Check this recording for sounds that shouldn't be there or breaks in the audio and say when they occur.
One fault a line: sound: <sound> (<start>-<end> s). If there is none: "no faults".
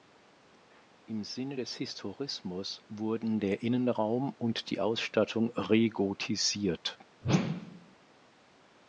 sound: whoosh (7.2-8.0 s)